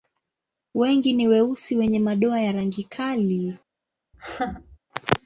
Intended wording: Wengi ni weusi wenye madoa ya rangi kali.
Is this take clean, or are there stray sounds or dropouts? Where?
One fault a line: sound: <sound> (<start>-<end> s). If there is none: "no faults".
sound: laugh (4.1-4.8 s)